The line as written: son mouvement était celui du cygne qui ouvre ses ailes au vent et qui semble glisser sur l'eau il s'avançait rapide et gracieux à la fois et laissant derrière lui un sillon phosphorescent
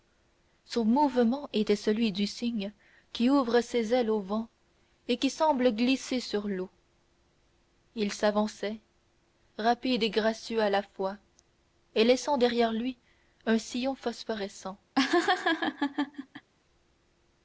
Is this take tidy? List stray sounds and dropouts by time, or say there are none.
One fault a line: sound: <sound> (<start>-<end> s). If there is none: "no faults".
sound: laugh (15.0-16.5 s)